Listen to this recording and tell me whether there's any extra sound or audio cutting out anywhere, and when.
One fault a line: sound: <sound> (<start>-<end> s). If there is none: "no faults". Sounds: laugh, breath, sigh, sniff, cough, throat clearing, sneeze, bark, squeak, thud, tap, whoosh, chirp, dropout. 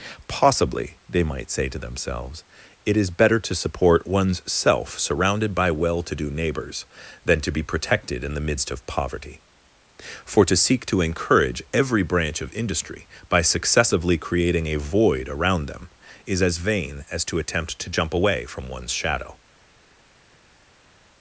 no faults